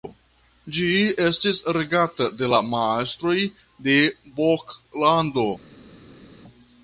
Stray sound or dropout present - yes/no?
no